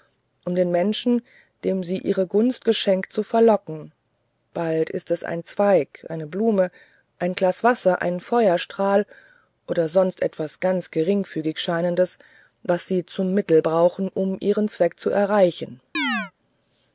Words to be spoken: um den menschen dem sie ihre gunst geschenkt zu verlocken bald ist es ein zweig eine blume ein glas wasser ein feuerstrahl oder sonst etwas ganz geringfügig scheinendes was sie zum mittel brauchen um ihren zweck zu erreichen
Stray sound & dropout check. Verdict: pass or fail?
fail